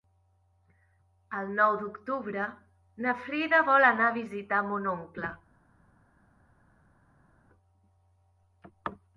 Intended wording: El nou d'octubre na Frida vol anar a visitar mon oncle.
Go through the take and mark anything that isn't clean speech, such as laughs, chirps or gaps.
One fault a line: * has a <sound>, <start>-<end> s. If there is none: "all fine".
all fine